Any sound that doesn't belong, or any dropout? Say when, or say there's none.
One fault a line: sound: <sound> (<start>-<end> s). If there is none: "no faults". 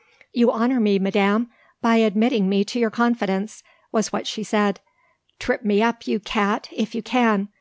no faults